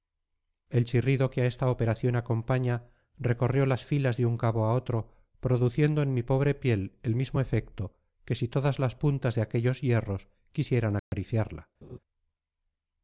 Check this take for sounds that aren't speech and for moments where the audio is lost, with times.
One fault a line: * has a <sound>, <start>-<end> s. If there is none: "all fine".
* has a dropout, 11.0-11.1 s
* has a laugh, 11.8-12.0 s